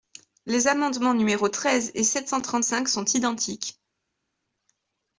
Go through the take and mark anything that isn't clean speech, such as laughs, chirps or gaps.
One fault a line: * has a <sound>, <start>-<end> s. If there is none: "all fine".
all fine